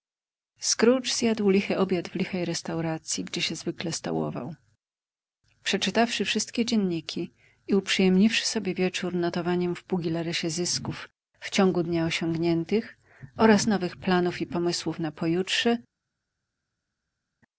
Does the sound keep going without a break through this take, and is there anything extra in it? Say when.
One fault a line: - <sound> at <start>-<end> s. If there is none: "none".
none